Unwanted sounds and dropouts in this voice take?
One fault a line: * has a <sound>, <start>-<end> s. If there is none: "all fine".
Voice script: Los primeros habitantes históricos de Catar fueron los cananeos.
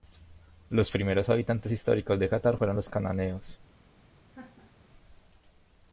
* has a laugh, 4.3-4.7 s